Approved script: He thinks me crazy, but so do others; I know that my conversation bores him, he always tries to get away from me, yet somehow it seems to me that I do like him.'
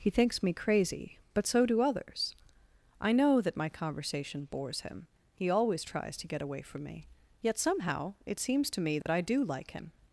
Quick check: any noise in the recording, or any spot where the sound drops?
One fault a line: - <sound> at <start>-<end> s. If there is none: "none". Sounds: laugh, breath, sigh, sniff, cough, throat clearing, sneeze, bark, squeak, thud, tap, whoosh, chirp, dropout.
- dropout at 9.0-9.1 s